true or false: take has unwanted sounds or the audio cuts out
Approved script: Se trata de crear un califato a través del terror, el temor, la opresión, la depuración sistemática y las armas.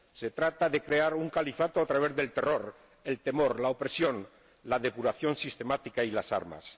false